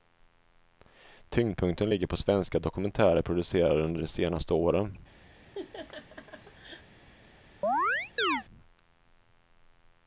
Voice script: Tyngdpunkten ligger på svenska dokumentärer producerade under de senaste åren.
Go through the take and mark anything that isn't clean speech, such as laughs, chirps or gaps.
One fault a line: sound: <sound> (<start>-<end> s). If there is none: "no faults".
sound: laugh (5.4-6.9 s)
sound: chirp (7.6-8.4 s)